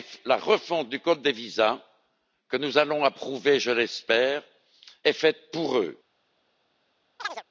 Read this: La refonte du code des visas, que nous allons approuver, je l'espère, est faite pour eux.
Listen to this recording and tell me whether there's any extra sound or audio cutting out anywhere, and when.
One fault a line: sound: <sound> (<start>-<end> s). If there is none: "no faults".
sound: chirp (7.2-7.4 s)